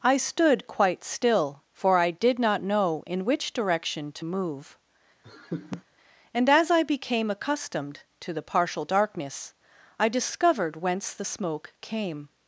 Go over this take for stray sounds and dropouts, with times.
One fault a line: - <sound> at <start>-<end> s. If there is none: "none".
- laugh at 5.2-5.8 s